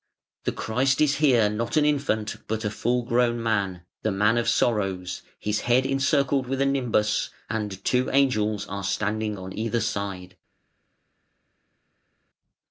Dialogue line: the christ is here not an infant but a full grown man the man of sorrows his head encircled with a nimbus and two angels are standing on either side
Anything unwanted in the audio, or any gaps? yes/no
no